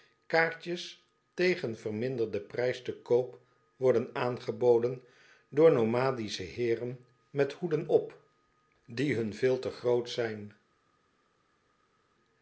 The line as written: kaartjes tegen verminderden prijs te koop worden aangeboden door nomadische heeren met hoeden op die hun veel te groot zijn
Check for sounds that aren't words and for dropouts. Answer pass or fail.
pass